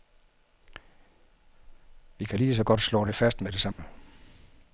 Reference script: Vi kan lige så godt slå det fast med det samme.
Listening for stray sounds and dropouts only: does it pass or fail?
fail